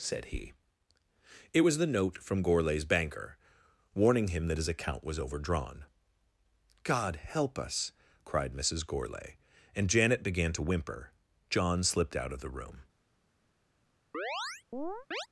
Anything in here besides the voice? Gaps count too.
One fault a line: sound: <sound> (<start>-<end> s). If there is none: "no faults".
sound: chirp (14.1-15.3 s)